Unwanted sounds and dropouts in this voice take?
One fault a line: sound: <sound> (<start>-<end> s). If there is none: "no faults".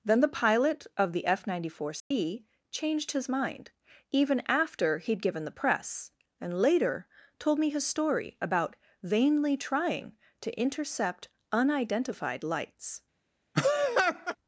sound: dropout (2.0-2.1 s)
sound: laugh (13.5-14.4 s)